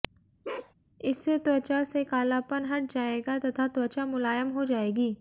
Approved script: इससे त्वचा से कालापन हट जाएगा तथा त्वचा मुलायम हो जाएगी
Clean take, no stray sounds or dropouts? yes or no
no